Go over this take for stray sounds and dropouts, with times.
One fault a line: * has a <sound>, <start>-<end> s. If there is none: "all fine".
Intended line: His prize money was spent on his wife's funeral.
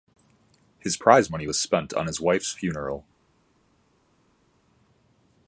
all fine